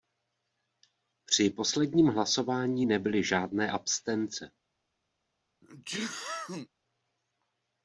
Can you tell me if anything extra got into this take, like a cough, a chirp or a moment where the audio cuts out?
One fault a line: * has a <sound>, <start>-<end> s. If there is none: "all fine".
* has a sneeze, 5.6-6.7 s